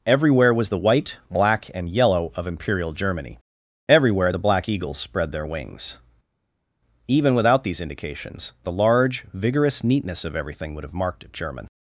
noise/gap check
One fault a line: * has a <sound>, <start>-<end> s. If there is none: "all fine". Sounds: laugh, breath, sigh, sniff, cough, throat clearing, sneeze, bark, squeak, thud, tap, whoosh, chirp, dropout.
all fine